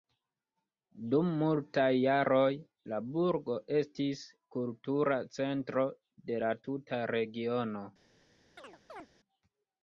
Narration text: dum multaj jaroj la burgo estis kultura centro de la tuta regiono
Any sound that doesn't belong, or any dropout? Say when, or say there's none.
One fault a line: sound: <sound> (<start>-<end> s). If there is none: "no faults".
sound: chirp (8.6-9.1 s)